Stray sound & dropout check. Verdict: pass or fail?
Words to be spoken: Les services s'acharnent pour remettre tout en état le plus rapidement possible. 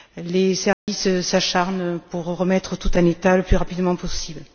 fail